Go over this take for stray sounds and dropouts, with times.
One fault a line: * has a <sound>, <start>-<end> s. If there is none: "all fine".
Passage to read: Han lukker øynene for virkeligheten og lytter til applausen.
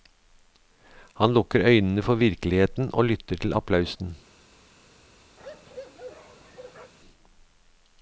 * has a bark, 5.4-6.9 s